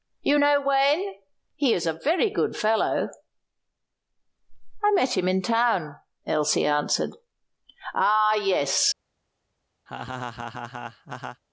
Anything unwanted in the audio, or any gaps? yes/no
yes